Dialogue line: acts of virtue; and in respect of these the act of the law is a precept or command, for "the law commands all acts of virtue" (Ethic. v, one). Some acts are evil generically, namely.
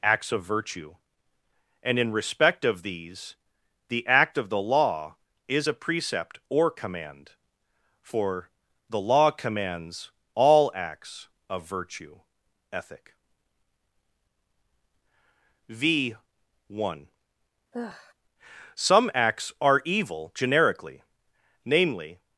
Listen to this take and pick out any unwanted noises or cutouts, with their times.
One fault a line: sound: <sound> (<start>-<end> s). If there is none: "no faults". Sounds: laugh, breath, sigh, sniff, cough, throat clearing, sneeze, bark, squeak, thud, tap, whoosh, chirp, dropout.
sound: sigh (17.7-18.1 s)